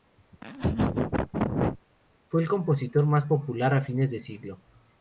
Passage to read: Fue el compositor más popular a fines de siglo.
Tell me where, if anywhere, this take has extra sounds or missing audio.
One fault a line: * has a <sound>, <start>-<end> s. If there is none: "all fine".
* has a laugh, 0.3-1.8 s